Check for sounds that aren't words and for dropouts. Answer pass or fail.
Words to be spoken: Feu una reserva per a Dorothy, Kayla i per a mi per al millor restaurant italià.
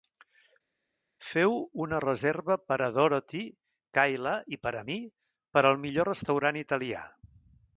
pass